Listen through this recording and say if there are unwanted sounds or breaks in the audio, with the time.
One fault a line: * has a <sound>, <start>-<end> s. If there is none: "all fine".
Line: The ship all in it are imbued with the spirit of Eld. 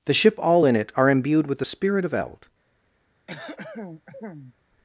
* has a throat clearing, 3.3-4.5 s